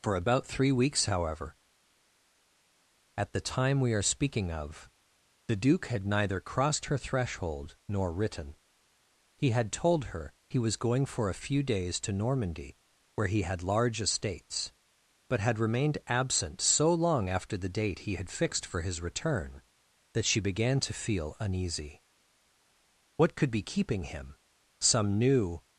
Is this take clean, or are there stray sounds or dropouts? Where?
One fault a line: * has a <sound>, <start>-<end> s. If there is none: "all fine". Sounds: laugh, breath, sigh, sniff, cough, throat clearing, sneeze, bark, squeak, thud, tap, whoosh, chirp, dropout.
all fine